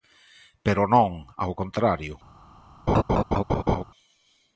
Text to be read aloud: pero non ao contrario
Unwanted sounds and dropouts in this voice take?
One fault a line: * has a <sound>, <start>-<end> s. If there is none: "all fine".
* has a laugh, 2.9-3.8 s